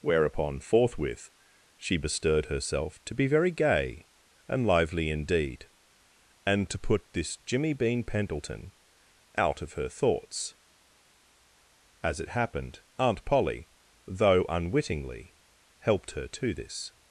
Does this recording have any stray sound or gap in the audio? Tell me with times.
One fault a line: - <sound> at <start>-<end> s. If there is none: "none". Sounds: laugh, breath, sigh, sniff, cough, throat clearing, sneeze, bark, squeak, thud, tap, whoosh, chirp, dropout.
none